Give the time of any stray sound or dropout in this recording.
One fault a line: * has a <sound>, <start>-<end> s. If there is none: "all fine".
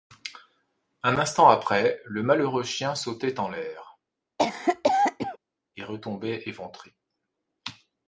* has a cough, 4.4-5.4 s